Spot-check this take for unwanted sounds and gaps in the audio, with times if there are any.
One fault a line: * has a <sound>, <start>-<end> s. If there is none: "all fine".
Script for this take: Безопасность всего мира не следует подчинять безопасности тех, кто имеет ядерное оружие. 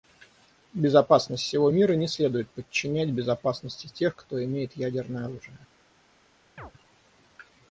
* has a chirp, 6.6-6.7 s